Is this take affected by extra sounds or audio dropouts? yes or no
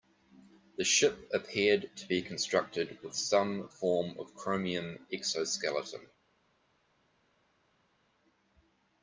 no